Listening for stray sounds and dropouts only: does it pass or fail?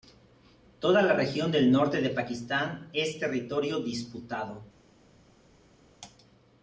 pass